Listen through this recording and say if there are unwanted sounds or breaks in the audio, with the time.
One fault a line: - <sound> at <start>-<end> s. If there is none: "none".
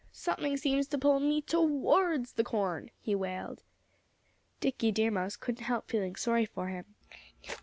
none